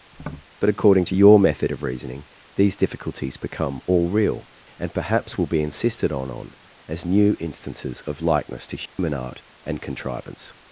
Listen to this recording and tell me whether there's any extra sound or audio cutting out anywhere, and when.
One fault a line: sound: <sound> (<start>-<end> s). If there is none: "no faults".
sound: tap (0.1-0.5 s)
sound: dropout (8.9-9.0 s)